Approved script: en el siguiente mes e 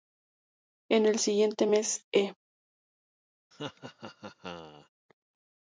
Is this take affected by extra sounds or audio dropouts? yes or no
yes